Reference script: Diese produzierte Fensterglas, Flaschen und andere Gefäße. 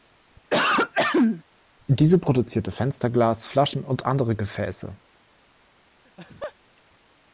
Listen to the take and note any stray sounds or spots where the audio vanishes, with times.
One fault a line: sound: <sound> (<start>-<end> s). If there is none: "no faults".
sound: throat clearing (0.5-1.4 s)
sound: laugh (6.0-6.5 s)